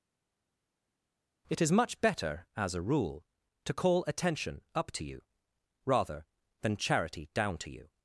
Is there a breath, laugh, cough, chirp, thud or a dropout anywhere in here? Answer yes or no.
no